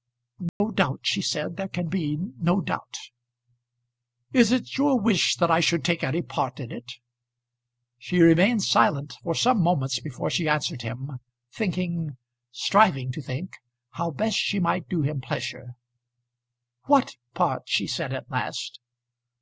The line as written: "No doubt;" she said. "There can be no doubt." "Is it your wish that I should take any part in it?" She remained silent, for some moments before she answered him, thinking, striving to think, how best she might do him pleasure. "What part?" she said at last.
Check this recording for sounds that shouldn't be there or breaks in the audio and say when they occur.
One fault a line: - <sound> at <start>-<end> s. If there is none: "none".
- dropout at 0.5-0.6 s